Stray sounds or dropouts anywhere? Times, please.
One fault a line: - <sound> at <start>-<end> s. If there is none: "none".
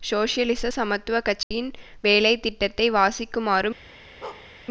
- dropout at 1.4-1.5 s
- bark at 4.2-4.5 s